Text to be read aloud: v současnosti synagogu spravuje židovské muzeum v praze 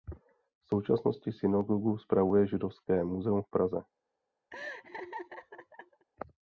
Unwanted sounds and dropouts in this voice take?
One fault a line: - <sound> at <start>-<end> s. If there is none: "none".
- laugh at 4.5-6.0 s